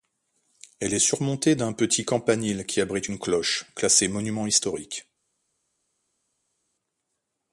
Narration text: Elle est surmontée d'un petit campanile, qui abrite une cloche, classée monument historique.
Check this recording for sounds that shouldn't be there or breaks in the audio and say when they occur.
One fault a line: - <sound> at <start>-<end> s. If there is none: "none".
none